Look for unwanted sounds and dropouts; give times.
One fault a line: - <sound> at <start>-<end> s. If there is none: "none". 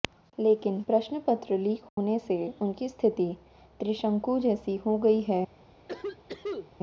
- dropout at 1.9-2.0 s
- cough at 5.9-6.7 s